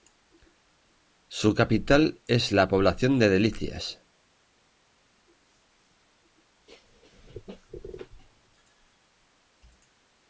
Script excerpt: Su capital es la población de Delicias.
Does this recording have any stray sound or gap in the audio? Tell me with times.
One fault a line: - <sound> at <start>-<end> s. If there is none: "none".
none